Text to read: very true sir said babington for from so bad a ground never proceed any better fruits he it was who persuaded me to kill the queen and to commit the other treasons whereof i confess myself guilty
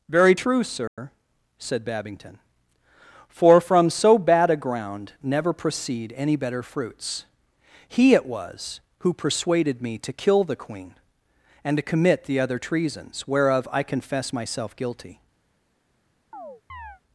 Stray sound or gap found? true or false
true